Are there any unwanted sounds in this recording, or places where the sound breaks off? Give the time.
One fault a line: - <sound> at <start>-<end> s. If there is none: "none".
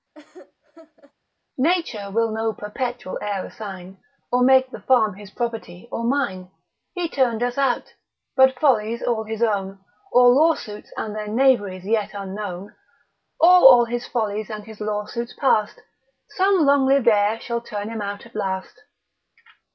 - laugh at 0.1-1.1 s